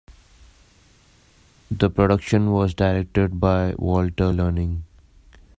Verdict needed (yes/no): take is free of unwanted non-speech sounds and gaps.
yes